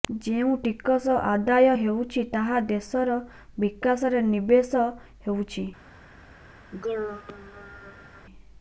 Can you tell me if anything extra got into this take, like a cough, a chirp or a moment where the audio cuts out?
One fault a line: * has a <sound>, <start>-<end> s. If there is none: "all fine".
* has a throat clearing, 6.7-8.3 s